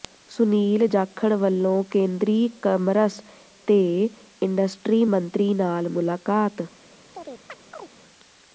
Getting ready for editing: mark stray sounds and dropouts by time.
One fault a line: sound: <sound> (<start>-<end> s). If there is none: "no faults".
sound: chirp (7.1-7.9 s)